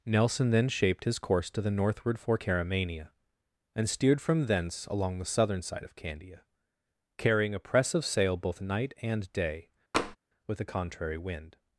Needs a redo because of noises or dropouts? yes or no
yes